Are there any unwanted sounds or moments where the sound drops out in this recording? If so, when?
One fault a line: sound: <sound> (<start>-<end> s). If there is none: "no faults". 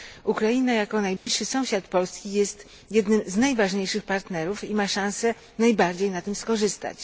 sound: dropout (1.2-1.3 s)